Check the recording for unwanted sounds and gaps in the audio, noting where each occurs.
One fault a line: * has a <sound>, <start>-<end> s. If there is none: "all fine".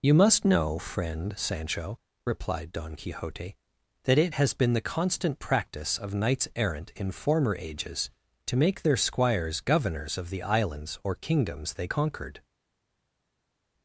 all fine